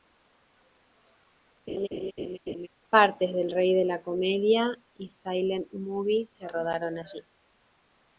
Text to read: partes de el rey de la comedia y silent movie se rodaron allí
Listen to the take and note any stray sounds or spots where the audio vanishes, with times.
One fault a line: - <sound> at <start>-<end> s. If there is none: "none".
- laugh at 1.7-2.7 s